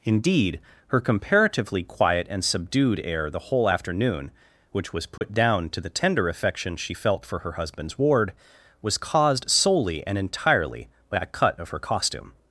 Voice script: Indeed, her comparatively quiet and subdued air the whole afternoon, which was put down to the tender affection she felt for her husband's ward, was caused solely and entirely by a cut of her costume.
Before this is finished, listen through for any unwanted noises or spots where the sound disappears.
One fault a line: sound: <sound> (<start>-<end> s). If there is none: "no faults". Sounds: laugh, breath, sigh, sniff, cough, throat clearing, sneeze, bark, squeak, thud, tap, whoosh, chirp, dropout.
sound: dropout (5.2-5.2 s)